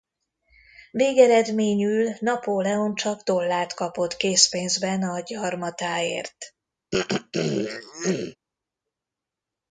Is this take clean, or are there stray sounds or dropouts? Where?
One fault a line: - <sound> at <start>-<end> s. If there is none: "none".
- throat clearing at 6.9-8.4 s